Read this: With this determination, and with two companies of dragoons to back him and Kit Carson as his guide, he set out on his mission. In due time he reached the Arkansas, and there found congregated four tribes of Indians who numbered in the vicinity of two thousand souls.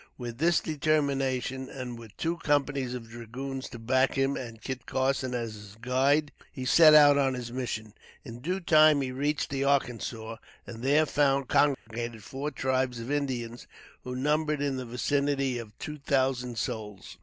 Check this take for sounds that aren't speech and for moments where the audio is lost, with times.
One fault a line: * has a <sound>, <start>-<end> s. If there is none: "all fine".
* has a dropout, 11.7-11.9 s